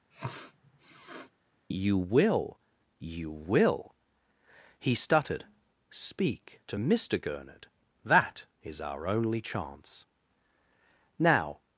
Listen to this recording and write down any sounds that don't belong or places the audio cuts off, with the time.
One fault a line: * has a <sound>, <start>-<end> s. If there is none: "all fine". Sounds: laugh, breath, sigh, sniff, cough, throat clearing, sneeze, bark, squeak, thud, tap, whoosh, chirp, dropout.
* has a sniff, 0.1-1.3 s